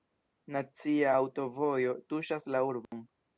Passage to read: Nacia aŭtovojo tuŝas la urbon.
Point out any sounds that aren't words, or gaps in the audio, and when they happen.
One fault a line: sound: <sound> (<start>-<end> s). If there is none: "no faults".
sound: dropout (2.8-2.9 s)